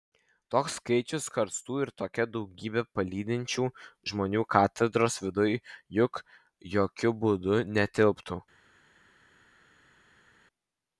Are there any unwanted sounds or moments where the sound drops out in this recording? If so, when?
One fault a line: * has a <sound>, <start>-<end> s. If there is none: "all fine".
all fine